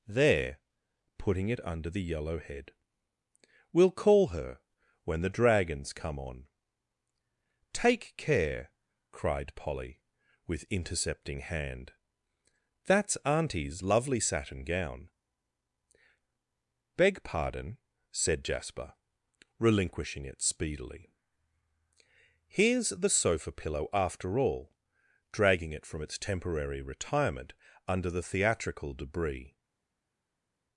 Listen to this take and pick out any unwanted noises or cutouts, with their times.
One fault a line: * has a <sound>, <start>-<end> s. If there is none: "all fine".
all fine